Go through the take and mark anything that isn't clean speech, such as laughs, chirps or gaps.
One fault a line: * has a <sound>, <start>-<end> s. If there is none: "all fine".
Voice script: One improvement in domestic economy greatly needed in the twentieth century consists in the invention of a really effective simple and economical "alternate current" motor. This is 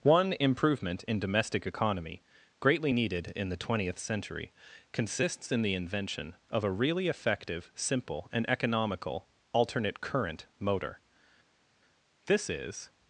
all fine